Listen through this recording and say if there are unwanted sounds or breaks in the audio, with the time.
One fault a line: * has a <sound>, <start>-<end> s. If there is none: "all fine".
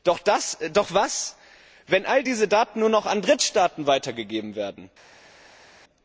all fine